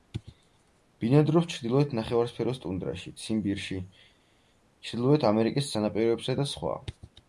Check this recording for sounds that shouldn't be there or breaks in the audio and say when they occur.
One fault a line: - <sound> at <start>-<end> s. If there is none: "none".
none